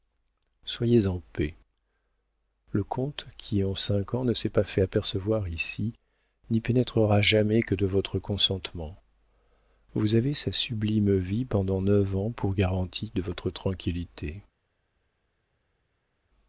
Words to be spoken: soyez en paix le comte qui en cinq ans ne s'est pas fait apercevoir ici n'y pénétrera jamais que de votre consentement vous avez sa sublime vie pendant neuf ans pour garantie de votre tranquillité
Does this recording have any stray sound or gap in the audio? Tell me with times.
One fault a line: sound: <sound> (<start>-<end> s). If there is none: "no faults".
no faults